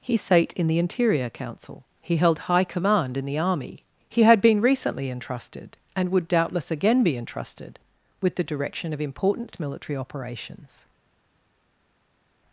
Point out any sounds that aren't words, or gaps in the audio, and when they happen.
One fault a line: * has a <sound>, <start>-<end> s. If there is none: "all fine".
all fine